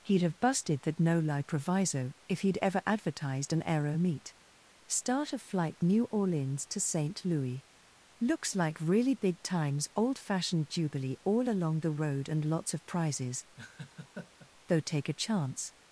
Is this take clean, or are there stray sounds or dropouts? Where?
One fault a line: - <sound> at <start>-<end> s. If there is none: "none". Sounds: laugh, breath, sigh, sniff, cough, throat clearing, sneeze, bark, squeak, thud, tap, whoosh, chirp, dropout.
- laugh at 13.6-14.5 s